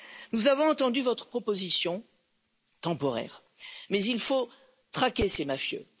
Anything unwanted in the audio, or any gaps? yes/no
no